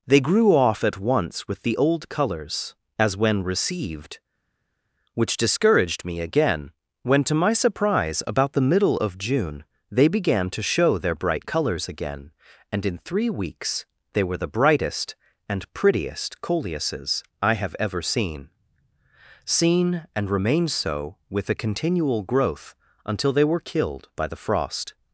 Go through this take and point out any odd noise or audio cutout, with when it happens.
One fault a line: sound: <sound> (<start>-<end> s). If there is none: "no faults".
no faults